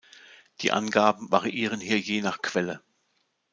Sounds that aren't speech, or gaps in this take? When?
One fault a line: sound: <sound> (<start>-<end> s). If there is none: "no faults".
no faults